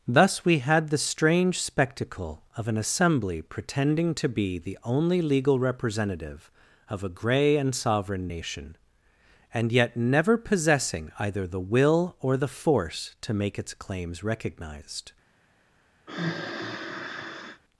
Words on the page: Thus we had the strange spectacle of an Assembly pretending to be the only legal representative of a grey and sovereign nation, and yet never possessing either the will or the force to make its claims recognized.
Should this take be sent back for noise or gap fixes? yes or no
yes